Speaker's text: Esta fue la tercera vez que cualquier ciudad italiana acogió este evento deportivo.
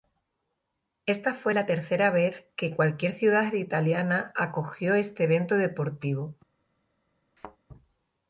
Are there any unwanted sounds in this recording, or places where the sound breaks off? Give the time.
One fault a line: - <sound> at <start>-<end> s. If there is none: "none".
- thud at 7.4-7.6 s